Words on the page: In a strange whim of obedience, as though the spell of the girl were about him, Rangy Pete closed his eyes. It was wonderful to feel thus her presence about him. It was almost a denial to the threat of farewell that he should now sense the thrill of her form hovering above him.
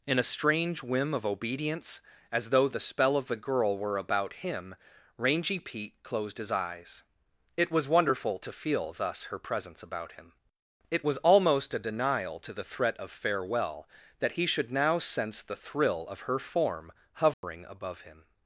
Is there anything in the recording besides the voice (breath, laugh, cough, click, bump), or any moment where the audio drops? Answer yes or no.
yes